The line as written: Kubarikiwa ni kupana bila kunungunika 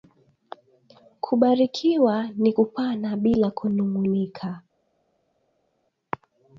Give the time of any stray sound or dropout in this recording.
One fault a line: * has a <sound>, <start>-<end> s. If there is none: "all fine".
all fine